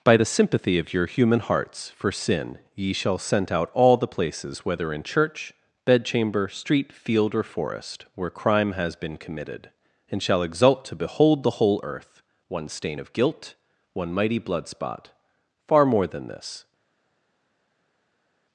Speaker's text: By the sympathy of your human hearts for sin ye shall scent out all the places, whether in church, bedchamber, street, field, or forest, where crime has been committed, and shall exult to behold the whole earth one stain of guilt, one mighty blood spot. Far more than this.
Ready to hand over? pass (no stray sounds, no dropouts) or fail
pass